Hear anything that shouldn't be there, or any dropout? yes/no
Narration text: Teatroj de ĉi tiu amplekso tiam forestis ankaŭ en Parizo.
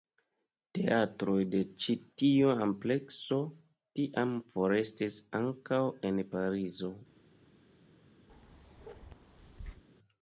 yes